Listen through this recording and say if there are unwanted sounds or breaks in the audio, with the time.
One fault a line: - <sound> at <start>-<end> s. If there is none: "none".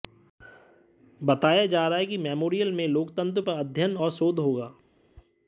none